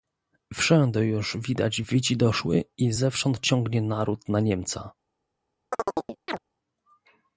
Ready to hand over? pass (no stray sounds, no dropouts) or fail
fail